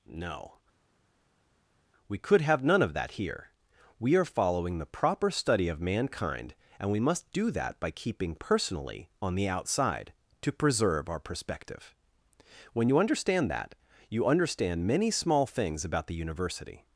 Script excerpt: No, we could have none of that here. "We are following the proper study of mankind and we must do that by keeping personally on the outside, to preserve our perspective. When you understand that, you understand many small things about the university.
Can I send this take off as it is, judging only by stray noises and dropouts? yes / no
yes